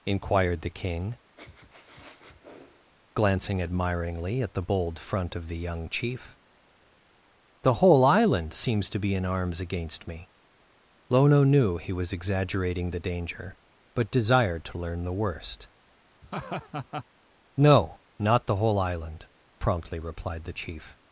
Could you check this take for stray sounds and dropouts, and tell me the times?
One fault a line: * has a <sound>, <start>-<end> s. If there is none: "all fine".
* has a sniff, 1.4-2.9 s
* has a laugh, 16.2-17.0 s